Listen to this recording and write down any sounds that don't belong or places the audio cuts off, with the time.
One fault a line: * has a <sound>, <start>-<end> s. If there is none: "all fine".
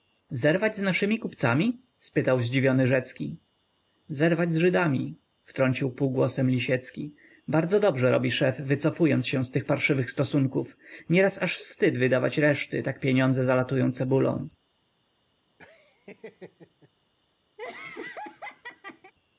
* has a laugh, 15.6-16.9 s
* has a laugh, 17.6-19.1 s